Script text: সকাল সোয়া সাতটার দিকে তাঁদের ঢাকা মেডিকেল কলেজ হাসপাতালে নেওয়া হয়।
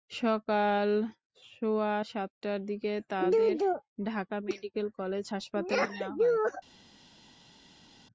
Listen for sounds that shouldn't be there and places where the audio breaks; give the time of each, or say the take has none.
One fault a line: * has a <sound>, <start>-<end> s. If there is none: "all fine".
all fine